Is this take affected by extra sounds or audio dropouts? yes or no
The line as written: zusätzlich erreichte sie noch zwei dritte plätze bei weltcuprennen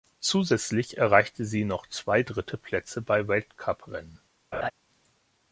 yes